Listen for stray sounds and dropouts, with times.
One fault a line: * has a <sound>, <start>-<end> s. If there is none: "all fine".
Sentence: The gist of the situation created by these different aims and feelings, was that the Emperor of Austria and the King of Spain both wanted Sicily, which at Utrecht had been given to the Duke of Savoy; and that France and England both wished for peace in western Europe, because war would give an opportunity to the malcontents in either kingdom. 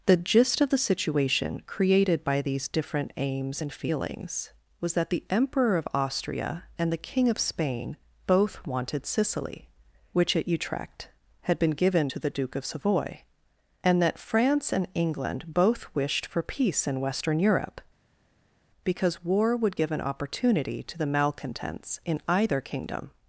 all fine